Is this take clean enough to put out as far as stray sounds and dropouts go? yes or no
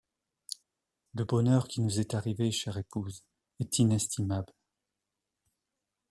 yes